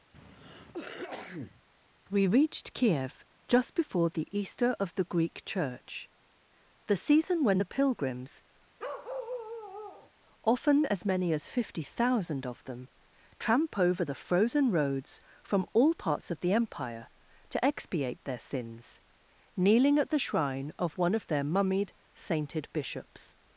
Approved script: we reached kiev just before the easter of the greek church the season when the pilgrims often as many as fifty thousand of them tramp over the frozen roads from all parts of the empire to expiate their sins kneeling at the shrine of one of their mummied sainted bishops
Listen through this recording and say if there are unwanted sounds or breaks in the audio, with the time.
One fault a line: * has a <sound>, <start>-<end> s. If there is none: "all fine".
* has a cough, 0.1-1.6 s
* has a bark, 8.8-10.1 s